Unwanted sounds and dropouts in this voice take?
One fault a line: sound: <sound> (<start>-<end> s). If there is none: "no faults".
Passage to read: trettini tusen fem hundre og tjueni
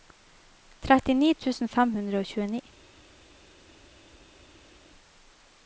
no faults